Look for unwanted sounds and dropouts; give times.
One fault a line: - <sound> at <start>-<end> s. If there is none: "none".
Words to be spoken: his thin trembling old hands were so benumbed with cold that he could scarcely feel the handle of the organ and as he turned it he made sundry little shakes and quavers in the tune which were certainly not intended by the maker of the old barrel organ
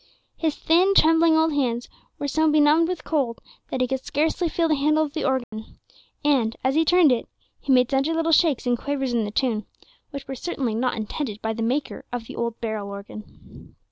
- dropout at 5.4-5.5 s